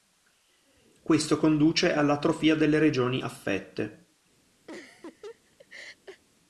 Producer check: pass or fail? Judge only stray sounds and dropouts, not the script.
fail